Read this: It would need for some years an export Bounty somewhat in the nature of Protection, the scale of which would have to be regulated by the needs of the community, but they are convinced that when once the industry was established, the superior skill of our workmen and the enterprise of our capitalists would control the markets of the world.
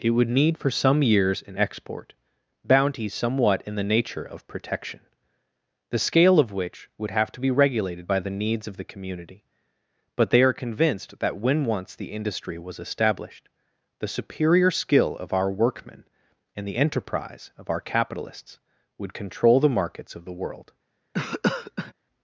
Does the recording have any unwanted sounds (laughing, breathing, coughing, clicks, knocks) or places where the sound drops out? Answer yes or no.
yes